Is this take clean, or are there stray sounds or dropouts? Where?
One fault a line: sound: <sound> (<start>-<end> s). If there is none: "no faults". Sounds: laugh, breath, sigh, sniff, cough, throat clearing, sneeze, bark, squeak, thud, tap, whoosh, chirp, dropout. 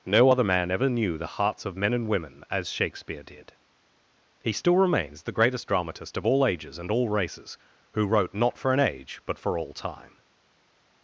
no faults